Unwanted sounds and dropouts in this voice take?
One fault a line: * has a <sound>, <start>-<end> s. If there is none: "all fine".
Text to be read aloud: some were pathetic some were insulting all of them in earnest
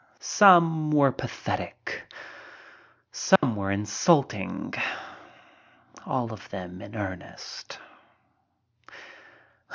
* has a dropout, 3.4-3.4 s